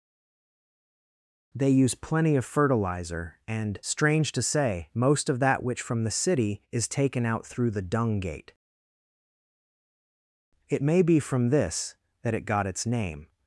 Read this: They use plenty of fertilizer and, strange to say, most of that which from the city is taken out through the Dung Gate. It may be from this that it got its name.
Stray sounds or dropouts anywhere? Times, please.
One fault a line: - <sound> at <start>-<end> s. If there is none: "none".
none